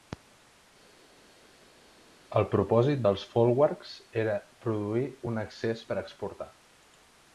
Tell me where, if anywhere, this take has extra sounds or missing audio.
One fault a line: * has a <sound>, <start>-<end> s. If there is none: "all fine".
all fine